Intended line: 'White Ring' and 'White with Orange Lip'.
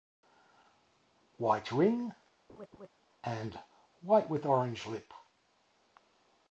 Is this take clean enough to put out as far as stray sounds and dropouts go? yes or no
no